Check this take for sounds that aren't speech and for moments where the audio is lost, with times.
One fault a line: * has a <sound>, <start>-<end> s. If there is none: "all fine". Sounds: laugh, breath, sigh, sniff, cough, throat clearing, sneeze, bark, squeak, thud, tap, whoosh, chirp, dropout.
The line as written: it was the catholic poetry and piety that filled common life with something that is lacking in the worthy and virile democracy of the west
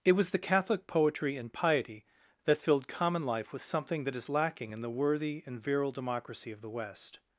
all fine